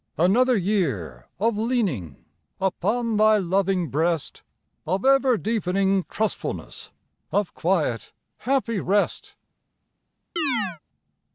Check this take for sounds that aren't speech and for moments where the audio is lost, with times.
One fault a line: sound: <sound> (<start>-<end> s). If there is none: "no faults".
sound: chirp (10.4-10.8 s)